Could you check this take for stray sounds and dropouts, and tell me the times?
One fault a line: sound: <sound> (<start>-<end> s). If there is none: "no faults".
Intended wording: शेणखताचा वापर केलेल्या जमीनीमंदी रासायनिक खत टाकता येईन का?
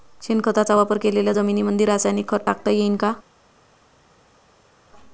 no faults